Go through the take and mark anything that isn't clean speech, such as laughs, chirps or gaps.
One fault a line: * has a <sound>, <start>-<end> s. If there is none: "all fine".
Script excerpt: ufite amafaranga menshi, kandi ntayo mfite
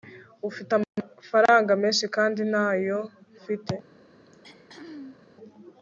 * has a throat clearing, 4.3-5.2 s